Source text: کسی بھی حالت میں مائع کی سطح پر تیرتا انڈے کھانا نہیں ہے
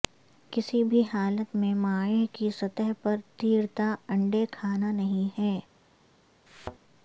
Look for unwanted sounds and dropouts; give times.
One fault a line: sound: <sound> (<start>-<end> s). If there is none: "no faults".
sound: thud (6.5-6.8 s)